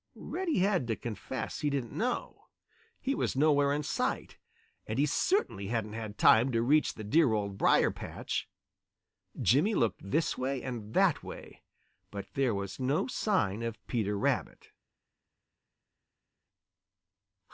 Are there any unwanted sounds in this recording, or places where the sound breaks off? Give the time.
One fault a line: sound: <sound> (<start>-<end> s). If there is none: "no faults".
no faults